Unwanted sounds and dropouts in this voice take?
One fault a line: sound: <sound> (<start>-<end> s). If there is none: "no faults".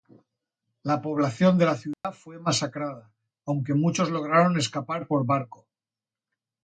sound: dropout (1.9-2.0 s)